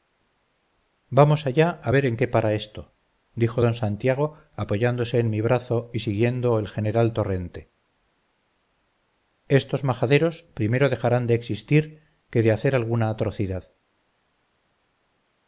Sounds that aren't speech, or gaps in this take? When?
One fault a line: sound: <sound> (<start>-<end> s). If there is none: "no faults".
no faults